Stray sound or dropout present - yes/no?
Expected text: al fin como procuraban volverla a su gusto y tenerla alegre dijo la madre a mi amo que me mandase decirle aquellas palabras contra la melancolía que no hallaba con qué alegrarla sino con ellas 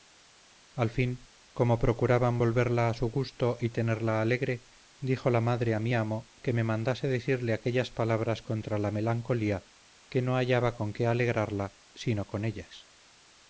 no